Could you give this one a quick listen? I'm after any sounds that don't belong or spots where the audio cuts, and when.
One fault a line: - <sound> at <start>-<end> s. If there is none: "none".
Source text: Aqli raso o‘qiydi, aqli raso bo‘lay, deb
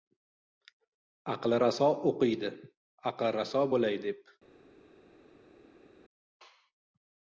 none